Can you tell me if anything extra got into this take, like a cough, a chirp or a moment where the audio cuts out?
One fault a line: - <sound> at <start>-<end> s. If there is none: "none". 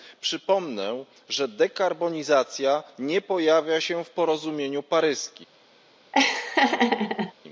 - laugh at 6.1-7.3 s